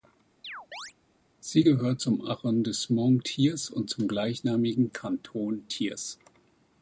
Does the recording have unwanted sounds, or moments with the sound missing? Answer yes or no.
yes